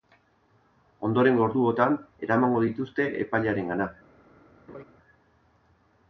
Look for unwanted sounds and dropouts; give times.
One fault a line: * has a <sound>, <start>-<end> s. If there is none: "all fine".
* has a laugh, 4.7-4.8 s